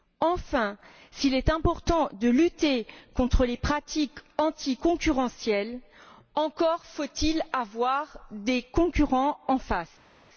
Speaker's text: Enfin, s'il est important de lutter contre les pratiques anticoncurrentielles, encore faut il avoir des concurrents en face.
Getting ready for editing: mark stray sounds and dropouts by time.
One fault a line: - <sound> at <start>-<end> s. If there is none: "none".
none